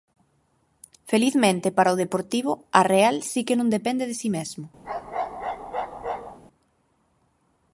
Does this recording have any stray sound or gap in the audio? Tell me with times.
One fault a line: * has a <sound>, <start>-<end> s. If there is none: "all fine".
* has a bark, 4.8-6.4 s